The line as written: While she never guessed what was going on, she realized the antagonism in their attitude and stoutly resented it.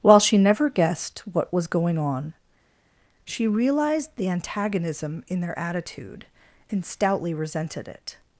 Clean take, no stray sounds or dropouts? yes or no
yes